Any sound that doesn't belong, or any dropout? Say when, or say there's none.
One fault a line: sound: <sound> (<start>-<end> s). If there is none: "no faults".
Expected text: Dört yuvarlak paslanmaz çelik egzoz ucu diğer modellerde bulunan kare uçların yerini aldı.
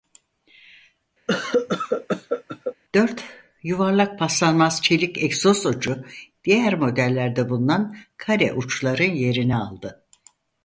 sound: cough (1.3-2.7 s)